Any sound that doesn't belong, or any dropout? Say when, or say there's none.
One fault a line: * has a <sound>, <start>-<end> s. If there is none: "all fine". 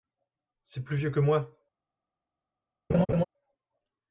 * has a laugh, 2.9-3.2 s